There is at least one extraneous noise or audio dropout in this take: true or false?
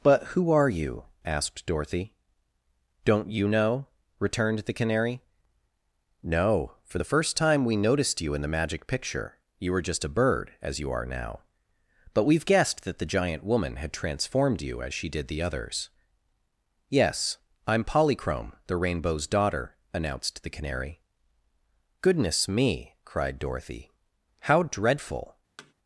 true